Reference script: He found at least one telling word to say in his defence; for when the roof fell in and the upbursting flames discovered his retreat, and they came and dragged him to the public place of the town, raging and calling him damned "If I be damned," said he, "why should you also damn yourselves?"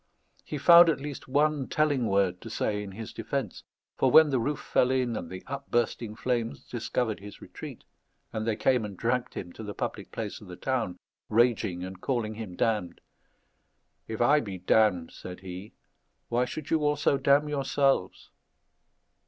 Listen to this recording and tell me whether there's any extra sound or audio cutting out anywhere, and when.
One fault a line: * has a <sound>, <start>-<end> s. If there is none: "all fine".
all fine